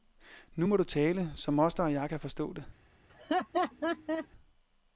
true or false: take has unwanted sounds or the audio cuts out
true